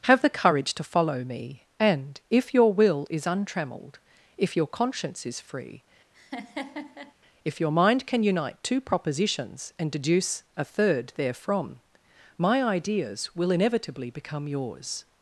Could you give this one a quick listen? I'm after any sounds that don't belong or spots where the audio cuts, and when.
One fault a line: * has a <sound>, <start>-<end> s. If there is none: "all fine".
* has a laugh, 6.1-7.1 s